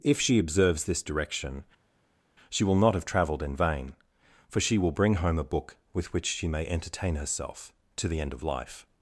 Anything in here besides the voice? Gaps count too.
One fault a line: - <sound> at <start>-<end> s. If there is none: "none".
none